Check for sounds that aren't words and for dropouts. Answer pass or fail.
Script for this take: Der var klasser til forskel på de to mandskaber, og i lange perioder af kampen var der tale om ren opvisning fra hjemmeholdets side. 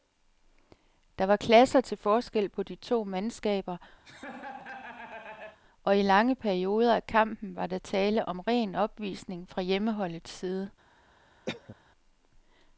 fail